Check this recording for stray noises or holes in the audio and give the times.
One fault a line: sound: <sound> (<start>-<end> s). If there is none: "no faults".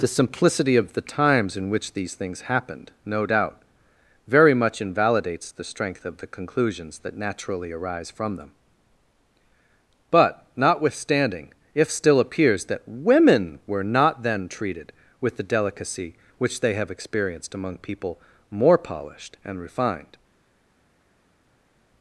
no faults